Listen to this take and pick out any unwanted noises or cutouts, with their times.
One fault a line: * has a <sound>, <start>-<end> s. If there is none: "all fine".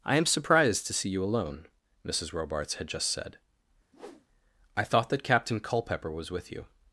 * has a whoosh, 3.9-4.3 s